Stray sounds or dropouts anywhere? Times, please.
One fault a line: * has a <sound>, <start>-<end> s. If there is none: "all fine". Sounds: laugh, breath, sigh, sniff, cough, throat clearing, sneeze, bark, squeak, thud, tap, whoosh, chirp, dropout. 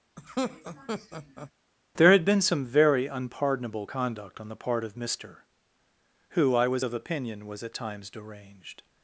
* has a laugh, 0.2-1.5 s